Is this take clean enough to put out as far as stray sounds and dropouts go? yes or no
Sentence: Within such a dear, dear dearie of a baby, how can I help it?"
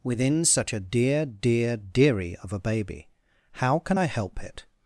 yes